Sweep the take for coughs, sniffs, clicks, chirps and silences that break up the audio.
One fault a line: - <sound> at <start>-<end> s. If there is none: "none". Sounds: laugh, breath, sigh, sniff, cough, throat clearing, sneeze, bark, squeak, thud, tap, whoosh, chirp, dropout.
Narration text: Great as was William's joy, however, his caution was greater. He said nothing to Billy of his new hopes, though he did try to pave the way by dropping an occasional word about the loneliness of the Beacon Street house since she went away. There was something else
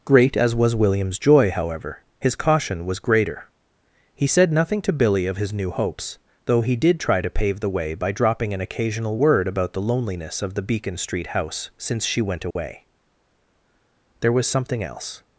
- dropout at 12.5-12.6 s